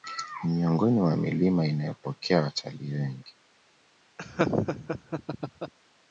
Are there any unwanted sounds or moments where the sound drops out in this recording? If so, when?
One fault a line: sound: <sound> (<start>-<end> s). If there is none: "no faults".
sound: laugh (4.2-5.7 s)